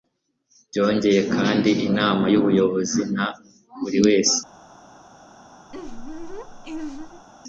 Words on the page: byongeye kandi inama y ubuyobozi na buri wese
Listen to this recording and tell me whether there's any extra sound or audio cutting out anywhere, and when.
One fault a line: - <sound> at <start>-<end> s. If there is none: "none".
- laugh at 5.7-7.3 s